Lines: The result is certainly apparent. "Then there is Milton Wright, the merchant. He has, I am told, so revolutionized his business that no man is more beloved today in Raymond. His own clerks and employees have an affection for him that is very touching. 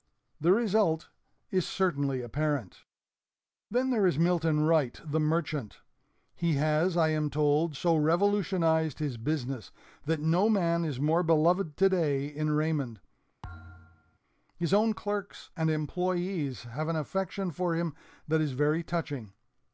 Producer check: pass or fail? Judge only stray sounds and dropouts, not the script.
fail